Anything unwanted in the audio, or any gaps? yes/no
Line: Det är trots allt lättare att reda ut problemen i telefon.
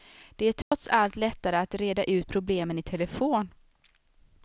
yes